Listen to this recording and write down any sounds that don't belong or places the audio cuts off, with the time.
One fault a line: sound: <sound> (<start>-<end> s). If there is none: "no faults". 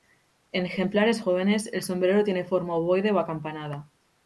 no faults